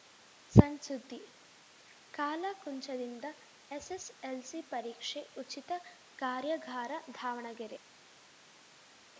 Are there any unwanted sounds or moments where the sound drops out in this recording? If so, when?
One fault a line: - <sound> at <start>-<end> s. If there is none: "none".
none